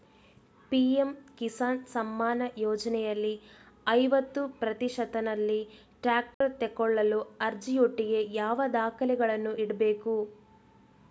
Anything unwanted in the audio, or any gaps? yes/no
yes